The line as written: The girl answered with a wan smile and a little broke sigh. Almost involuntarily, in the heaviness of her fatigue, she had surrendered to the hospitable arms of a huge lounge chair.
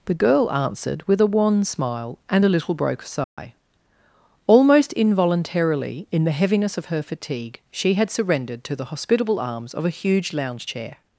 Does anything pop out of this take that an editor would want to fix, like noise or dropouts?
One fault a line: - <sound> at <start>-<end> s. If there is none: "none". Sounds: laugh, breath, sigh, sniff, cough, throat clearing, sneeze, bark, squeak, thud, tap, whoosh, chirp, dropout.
- dropout at 3.2-3.4 s